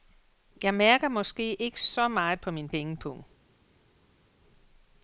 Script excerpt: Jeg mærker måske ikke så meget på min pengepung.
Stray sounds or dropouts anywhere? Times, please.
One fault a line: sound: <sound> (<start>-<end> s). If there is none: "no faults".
no faults